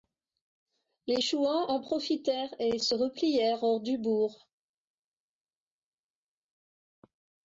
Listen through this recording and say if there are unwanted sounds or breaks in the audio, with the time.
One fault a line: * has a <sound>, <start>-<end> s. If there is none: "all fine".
all fine